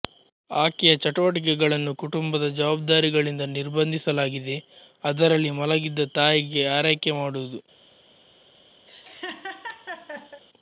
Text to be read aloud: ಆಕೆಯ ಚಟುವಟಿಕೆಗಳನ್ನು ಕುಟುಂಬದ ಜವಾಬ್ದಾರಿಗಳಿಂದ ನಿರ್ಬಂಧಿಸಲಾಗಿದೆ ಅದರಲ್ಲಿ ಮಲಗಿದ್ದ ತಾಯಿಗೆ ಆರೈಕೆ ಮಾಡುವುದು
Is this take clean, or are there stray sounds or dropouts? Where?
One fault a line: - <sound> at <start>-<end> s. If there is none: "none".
- laugh at 8.9-10.4 s